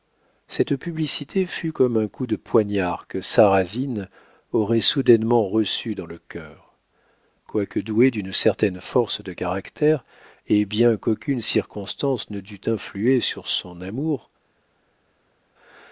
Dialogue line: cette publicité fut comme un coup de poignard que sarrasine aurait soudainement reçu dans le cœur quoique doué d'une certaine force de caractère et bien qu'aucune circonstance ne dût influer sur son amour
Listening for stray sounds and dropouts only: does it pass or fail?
pass